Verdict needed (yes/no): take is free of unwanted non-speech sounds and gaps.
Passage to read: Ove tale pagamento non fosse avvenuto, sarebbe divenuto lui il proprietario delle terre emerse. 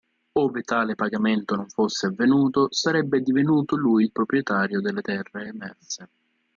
yes